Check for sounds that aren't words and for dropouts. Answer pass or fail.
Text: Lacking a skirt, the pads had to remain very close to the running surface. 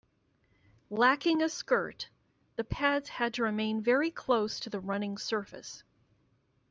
pass